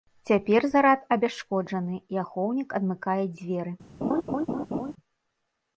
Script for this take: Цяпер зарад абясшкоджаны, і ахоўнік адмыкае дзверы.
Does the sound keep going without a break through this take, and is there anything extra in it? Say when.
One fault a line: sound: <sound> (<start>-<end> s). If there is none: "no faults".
sound: laugh (4.0-4.9 s)